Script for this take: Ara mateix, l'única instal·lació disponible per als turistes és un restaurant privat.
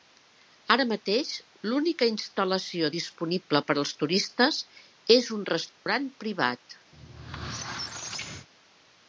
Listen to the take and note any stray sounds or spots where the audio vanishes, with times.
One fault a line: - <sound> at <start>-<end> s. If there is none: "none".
- dropout at 5.7-5.9 s
- squeak at 6.9-8.5 s